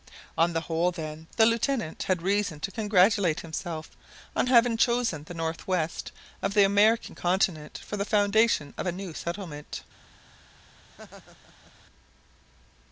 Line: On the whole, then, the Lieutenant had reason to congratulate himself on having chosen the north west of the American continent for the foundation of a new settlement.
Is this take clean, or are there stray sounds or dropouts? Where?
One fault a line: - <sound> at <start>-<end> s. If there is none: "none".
- laugh at 10.8-11.7 s